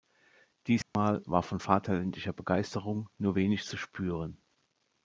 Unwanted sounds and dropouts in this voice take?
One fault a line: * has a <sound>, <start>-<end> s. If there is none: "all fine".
* has a dropout, 0.8-0.9 s